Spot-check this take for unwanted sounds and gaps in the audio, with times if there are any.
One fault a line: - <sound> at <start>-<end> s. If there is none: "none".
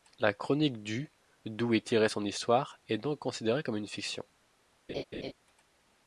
- laugh at 4.9-5.3 s